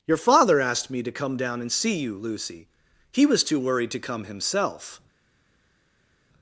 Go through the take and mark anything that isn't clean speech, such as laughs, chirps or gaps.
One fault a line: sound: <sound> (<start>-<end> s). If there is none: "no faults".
no faults